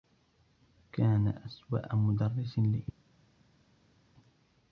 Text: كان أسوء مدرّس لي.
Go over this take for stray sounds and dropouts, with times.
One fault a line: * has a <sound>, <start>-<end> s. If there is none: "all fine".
all fine